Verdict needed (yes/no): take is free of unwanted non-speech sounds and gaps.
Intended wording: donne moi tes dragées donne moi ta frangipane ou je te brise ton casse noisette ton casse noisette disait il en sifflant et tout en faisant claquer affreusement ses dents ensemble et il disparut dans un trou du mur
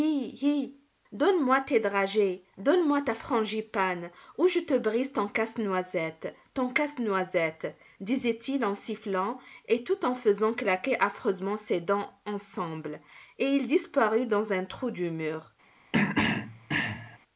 no